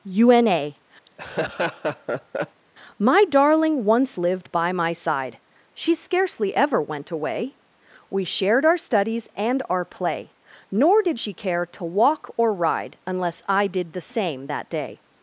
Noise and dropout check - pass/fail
fail